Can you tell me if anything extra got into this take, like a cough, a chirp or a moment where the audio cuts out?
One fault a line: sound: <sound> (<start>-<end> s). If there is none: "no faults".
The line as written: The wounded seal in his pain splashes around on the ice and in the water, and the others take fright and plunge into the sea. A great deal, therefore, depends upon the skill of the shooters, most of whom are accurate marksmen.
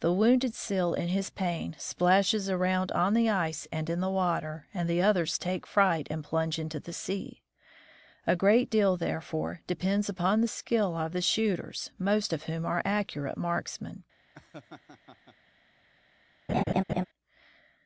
sound: laugh (14.3-15.4 s)
sound: laugh (16.5-17.1 s)